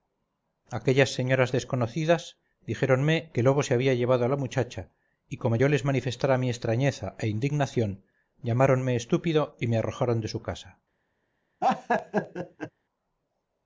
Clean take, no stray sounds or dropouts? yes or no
no